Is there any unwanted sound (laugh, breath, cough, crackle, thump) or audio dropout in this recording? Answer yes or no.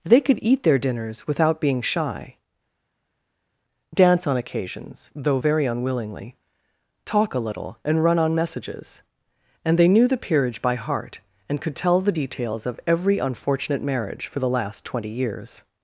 no